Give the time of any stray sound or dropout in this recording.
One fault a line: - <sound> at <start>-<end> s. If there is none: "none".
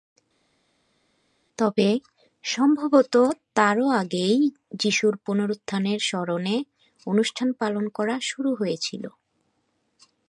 none